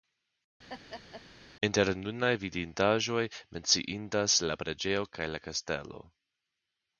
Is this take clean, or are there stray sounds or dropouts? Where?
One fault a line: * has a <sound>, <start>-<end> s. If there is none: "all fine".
* has a laugh, 0.7-1.2 s